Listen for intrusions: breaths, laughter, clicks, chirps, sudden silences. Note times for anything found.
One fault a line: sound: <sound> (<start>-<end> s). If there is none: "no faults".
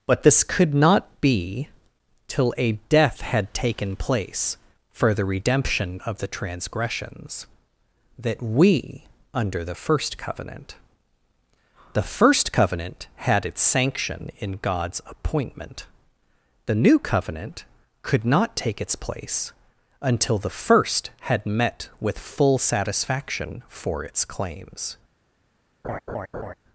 sound: laugh (25.8-26.5 s)